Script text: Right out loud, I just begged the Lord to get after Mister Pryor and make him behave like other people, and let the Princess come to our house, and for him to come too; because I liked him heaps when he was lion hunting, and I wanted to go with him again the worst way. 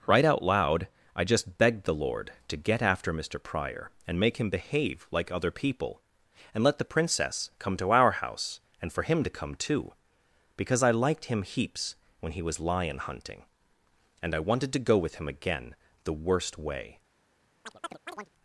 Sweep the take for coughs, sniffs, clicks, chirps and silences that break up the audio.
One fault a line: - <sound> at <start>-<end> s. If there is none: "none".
- chirp at 17.6-18.3 s